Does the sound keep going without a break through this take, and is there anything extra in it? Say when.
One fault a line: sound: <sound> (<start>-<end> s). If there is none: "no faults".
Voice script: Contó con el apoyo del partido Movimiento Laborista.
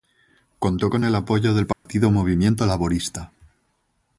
sound: dropout (1.7-1.9 s)